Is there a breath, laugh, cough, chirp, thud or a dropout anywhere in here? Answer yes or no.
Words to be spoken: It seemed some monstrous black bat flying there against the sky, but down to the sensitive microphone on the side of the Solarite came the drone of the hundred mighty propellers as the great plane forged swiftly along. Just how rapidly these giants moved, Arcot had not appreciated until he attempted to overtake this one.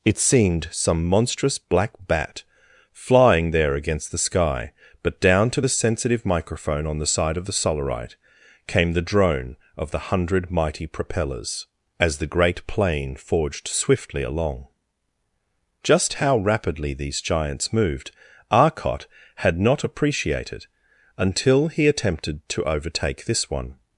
no